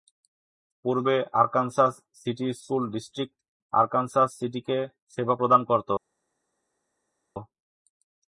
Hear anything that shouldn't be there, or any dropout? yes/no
no